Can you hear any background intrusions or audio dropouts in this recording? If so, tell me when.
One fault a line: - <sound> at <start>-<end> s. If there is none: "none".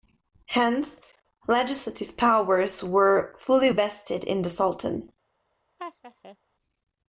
- laugh at 5.8-6.4 s